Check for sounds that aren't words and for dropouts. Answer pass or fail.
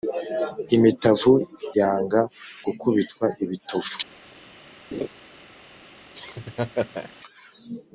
fail